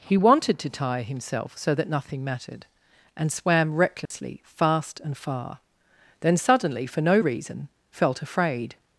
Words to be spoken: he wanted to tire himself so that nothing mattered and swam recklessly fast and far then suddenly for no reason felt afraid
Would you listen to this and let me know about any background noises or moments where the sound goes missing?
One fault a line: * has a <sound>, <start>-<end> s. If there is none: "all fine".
* has a dropout, 4.1-4.1 s